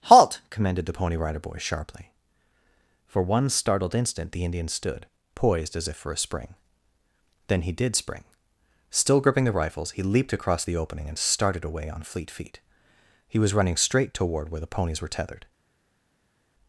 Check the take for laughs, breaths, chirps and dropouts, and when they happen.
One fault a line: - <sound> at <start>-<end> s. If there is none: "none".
none